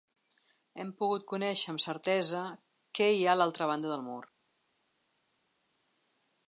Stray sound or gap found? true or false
false